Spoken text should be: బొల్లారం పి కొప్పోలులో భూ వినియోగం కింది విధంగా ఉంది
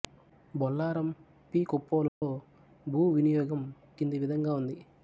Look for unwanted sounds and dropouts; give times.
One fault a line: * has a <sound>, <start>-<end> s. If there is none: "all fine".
* has a dropout, 2.1-2.2 s